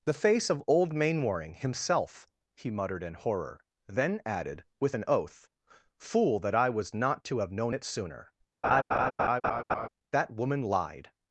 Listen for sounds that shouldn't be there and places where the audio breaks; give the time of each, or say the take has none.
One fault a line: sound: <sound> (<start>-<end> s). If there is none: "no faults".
sound: laugh (8.6-9.9 s)